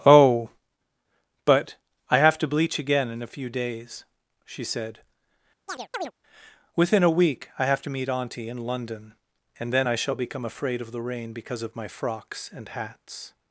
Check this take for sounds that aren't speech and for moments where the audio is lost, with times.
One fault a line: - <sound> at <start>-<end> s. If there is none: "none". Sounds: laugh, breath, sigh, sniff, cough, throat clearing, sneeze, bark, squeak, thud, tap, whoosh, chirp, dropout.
- chirp at 5.7-6.1 s